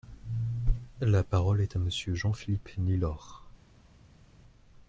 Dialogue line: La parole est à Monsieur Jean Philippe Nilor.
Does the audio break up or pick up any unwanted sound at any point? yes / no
no